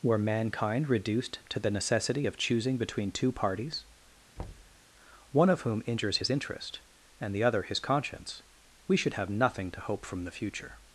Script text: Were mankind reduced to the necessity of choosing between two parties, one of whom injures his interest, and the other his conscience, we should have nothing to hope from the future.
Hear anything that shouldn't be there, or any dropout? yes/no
yes